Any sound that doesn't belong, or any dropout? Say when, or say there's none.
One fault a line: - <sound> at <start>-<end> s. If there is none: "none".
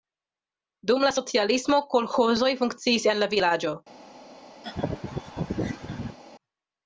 - laugh at 4.6-6.2 s